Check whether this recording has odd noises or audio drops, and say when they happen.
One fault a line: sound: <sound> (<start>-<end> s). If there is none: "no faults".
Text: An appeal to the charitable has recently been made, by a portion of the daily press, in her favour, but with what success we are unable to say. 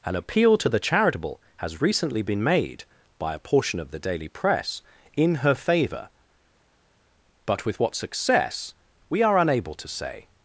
no faults